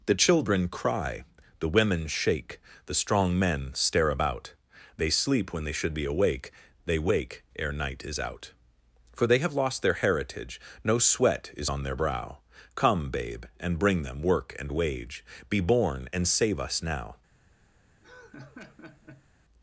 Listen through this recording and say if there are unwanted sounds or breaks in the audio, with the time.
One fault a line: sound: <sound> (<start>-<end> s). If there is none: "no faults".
sound: laugh (18.0-19.3 s)